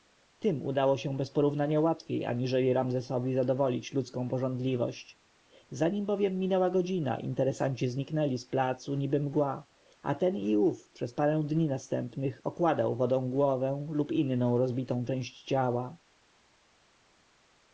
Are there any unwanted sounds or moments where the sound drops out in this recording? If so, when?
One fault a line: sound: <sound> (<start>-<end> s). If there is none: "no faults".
no faults